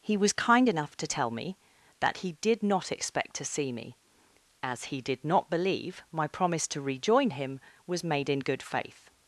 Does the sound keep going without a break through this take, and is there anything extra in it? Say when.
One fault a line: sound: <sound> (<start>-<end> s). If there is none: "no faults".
no faults